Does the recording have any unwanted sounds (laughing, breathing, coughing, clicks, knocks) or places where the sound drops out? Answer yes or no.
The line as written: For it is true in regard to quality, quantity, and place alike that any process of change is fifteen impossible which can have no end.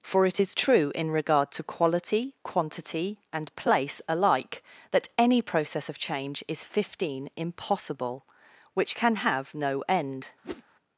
yes